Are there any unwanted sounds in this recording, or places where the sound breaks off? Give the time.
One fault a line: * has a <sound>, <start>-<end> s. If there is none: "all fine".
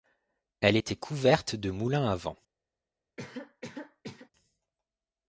* has a cough, 3.2-4.3 s